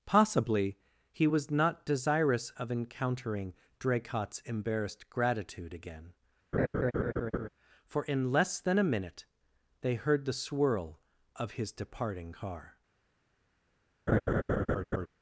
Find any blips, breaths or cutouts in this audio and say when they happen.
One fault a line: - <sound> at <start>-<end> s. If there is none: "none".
- laugh at 6.5-7.5 s
- laugh at 14.1-15.1 s